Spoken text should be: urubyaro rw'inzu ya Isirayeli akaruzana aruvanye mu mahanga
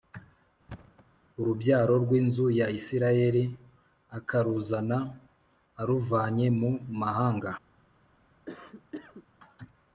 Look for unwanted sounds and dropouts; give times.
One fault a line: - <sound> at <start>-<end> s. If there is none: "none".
- thud at 0.7-1.1 s
- cough at 8.5-9.3 s